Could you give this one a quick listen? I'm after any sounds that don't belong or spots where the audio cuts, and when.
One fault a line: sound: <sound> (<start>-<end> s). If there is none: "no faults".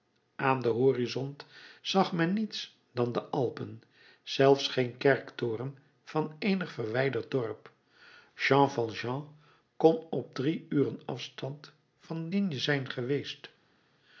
no faults